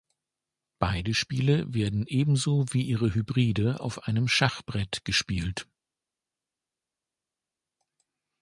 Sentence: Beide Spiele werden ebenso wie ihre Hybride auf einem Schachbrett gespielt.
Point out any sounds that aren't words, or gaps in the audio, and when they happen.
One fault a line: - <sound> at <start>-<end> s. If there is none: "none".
none